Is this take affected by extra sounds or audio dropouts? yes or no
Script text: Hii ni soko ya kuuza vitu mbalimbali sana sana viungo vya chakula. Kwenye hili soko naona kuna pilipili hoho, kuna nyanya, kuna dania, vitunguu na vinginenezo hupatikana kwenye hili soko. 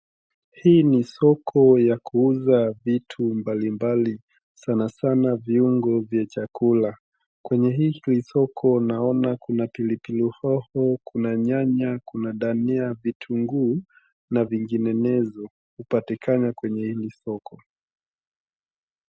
no